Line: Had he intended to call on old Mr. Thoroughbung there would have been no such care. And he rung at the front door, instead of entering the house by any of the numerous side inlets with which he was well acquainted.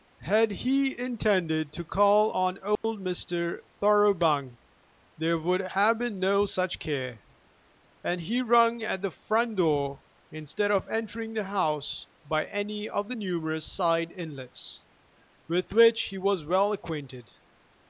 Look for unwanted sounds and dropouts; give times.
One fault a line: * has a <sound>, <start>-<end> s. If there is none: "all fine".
* has a dropout, 2.8-2.8 s